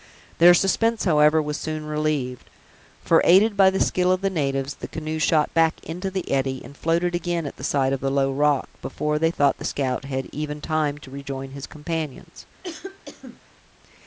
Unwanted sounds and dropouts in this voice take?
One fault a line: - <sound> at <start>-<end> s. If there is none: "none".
- cough at 12.6-13.4 s